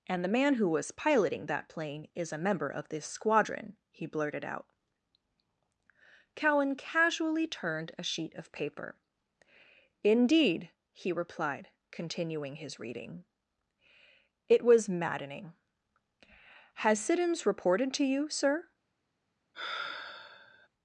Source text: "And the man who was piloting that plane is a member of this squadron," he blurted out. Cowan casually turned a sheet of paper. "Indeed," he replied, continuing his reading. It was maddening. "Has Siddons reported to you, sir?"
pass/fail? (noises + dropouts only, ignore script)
fail